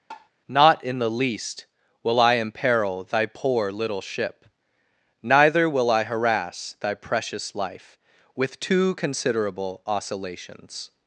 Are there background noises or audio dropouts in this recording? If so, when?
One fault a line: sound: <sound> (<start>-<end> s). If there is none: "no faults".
sound: tap (0.1-0.3 s)